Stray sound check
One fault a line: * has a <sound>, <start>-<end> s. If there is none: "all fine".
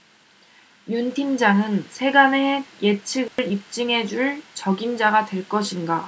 * has a dropout, 3.3-3.4 s